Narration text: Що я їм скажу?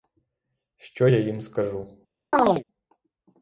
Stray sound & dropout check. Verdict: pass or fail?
fail